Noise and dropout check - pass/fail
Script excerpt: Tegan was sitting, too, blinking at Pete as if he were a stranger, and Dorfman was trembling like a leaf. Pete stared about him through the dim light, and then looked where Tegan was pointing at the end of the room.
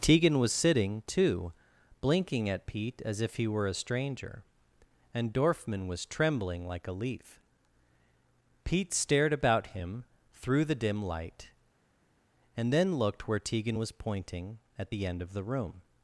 pass